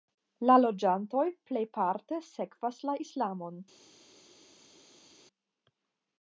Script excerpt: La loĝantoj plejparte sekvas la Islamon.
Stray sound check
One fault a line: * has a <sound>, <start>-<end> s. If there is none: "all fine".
all fine